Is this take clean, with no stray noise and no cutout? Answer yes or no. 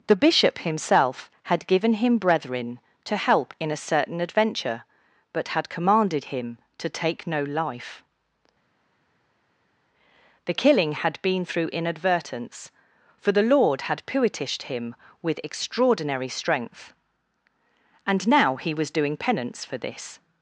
yes